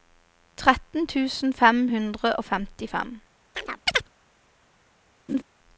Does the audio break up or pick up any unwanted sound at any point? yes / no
yes